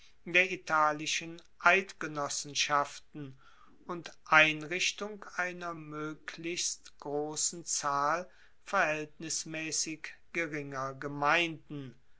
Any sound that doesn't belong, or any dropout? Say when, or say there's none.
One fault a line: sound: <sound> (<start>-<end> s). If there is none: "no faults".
no faults